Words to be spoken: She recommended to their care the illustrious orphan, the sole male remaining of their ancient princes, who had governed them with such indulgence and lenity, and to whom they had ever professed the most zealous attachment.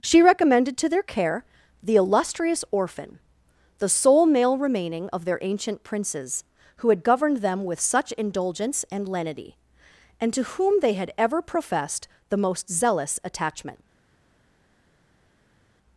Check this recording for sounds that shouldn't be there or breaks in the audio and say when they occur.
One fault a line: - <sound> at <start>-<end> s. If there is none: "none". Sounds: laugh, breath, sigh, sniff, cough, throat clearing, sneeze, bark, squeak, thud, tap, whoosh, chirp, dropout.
none